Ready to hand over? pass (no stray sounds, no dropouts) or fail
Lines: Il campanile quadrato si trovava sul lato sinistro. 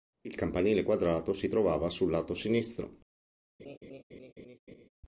fail